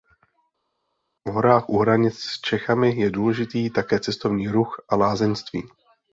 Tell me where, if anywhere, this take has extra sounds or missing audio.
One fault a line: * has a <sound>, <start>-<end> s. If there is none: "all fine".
all fine